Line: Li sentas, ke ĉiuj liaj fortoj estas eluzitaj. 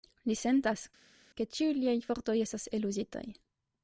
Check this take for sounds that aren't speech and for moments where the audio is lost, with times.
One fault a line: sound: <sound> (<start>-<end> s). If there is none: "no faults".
no faults